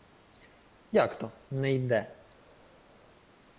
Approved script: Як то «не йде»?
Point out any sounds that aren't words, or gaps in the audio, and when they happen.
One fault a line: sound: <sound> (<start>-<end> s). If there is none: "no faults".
no faults